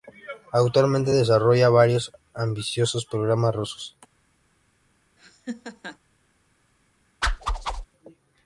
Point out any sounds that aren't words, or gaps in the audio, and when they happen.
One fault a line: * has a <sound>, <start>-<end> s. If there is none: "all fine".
* has a laugh, 5.2-6.0 s
* has a whoosh, 7.2-7.9 s